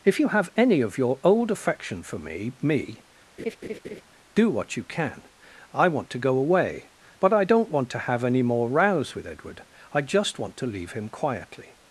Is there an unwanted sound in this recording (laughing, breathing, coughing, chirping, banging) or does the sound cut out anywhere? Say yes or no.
yes